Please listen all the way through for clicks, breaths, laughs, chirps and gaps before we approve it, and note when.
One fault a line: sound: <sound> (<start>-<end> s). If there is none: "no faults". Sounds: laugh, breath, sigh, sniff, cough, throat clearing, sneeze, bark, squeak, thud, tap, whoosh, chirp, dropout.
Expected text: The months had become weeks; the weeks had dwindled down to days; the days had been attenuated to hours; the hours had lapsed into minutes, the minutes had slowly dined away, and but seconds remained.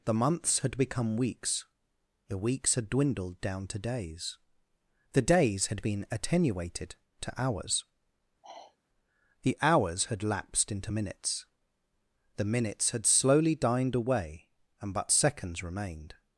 sound: sigh (8.4-8.8 s)